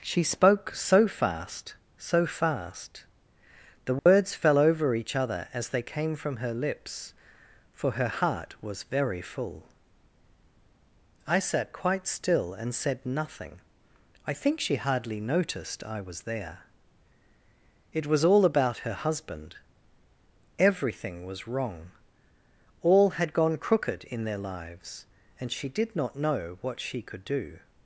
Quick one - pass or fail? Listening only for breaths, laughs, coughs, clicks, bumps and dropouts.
fail